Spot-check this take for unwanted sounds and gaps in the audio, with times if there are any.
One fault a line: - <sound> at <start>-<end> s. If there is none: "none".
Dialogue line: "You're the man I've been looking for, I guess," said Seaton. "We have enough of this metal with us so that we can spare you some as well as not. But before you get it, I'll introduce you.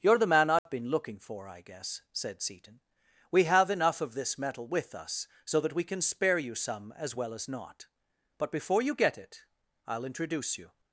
- dropout at 0.6-0.7 s